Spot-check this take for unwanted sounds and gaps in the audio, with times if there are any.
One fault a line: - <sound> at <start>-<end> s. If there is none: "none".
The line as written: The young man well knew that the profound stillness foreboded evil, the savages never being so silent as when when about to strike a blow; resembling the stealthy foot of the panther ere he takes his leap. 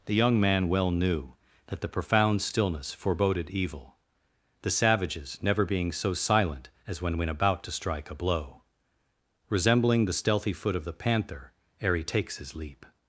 none